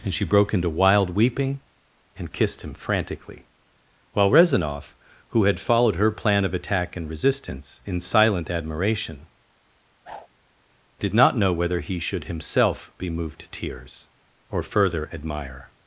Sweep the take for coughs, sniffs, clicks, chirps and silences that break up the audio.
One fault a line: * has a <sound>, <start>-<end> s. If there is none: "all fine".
* has a whoosh, 10.0-10.3 s